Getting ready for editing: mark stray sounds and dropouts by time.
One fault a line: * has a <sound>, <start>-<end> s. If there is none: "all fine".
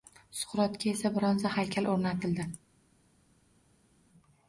all fine